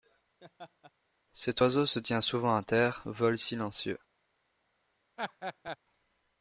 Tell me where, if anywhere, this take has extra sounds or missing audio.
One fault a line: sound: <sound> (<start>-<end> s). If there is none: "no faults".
sound: laugh (0.4-0.9 s)
sound: laugh (5.2-5.8 s)